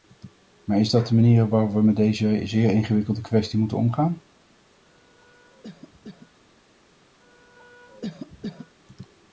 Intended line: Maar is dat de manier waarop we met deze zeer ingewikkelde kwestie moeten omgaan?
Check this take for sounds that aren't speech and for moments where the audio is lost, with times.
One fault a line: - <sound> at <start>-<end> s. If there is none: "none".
- cough at 4.8-6.4 s
- cough at 7.2-8.8 s